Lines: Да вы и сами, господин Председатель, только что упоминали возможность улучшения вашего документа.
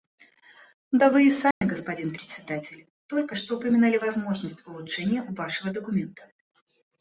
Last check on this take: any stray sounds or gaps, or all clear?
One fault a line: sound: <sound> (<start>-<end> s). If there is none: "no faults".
sound: dropout (1.5-1.6 s)